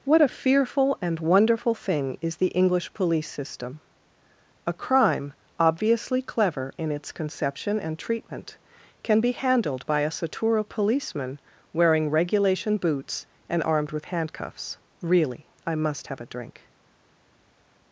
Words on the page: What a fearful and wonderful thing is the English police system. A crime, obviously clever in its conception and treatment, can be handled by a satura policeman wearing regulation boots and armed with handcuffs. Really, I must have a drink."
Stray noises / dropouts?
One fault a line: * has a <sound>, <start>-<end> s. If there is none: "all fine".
all fine